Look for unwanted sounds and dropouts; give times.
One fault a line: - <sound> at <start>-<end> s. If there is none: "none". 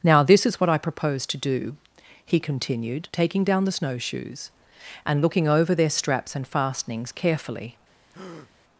- breath at 8.1-8.5 s